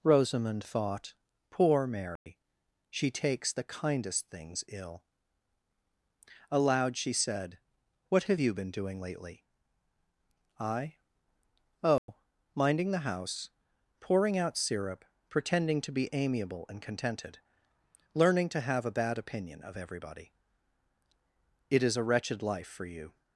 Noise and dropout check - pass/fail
fail